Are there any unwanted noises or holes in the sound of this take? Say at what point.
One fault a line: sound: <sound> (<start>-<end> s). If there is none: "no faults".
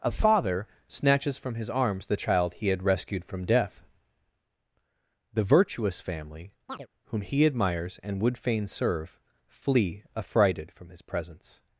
sound: chirp (6.7-6.9 s)